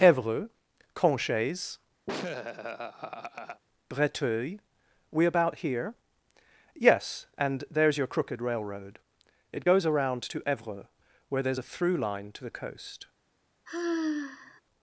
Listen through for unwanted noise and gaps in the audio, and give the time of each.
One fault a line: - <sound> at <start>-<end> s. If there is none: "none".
- laugh at 2.1-3.6 s
- sigh at 13.7-14.6 s